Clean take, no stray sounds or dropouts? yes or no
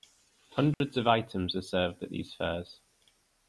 no